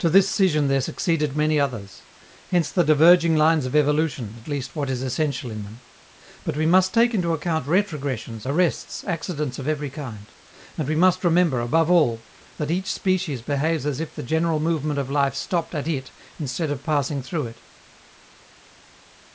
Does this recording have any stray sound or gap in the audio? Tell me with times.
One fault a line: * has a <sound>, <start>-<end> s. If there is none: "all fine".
all fine